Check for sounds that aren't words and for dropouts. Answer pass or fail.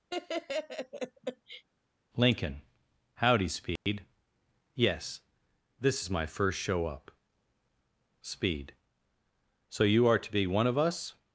fail